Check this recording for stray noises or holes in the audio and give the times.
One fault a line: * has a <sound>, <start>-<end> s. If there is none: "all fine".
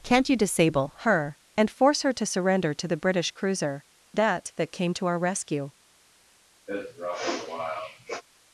* has a sniff, 6.7-8.2 s